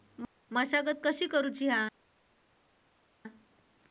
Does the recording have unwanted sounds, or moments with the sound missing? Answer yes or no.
no